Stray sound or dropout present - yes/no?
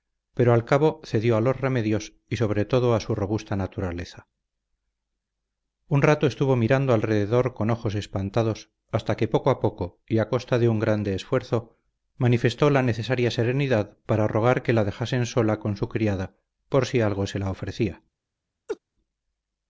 yes